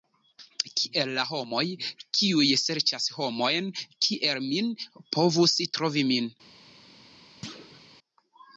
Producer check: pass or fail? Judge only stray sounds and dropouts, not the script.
fail